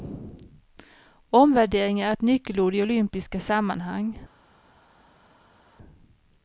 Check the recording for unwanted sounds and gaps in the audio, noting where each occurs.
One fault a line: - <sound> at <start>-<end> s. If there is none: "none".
none